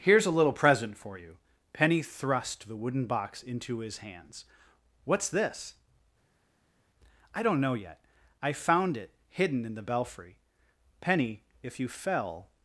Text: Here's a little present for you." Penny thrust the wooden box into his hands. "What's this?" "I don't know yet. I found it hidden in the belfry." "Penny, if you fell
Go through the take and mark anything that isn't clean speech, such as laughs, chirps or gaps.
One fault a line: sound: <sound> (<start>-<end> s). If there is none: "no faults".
no faults